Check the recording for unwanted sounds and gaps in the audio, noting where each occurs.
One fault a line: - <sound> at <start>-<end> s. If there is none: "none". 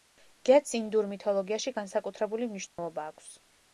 - dropout at 2.7-2.8 s